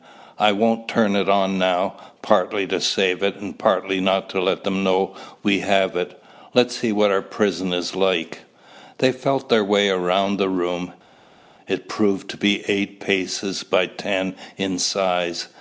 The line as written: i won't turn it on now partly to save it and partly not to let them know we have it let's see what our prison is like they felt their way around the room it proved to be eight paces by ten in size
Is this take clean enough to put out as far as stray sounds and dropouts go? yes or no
yes